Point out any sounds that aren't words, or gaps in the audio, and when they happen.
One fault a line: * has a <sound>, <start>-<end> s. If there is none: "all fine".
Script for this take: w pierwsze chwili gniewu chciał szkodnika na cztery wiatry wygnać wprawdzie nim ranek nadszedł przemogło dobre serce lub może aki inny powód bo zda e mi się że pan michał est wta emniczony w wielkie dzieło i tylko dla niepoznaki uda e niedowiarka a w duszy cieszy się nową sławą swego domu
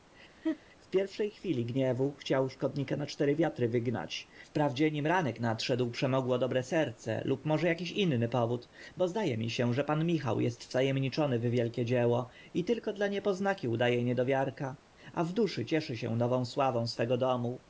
* has a laugh, 0.4-0.6 s